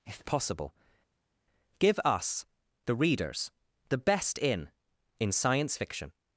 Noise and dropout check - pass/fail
pass